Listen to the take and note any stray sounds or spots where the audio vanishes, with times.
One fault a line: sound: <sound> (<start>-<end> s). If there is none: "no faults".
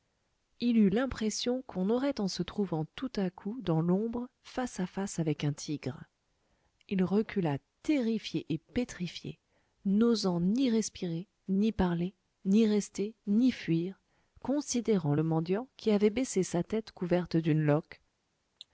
sound: cough (18.6-18.7 s)